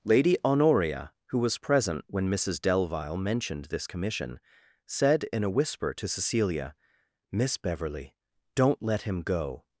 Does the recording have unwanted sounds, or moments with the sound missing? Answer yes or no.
no